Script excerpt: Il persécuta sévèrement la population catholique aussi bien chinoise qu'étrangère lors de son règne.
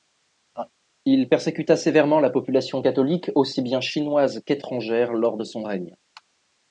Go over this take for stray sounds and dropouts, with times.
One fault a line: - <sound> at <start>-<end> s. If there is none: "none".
- laugh at 0.5-0.7 s